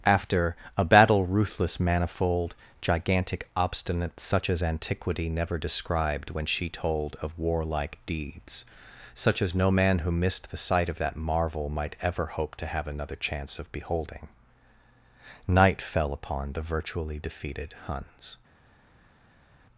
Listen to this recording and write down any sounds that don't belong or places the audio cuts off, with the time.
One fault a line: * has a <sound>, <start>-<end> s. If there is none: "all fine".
all fine